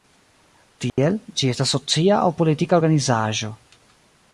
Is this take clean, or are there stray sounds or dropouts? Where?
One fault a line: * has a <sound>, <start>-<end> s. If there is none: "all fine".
* has a dropout, 0.9-1.0 s